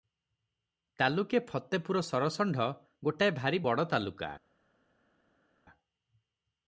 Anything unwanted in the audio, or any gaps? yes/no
no